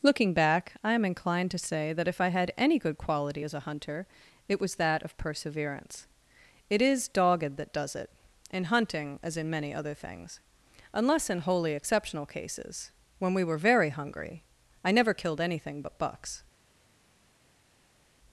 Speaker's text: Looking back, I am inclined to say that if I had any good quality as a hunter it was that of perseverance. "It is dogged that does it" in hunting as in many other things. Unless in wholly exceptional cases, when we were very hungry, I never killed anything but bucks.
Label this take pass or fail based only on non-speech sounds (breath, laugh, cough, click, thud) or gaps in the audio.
pass